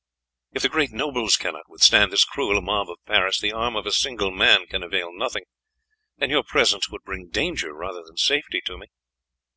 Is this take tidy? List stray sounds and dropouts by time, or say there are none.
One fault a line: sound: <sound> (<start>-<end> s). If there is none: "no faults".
no faults